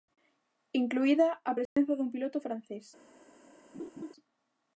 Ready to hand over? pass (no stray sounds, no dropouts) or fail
fail